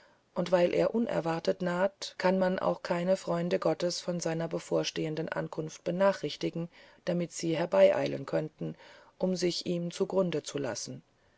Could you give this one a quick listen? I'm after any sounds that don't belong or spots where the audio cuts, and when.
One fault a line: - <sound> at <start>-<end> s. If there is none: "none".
none